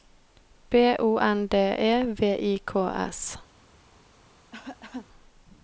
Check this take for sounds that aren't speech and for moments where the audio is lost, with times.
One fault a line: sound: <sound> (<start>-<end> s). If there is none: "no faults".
sound: cough (4.5-5.1 s)